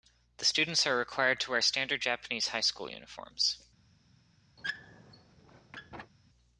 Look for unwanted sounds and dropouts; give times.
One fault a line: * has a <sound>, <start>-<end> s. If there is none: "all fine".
* has a squeak, 4.6-6.1 s